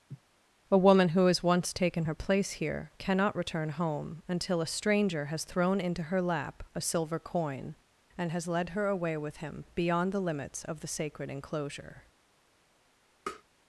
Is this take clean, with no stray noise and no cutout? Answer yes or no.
no